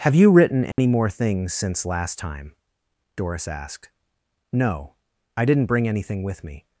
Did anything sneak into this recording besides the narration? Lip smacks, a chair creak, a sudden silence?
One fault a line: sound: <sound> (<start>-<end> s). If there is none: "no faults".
sound: dropout (0.7-0.8 s)